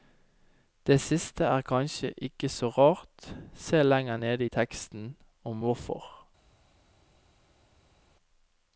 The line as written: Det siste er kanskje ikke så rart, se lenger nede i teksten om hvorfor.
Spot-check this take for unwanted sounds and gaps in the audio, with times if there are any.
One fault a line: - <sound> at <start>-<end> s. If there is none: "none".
none